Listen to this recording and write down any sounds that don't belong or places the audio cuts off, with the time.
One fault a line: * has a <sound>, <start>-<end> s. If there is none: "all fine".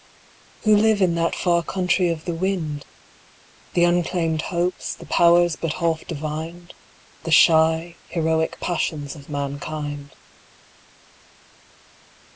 all fine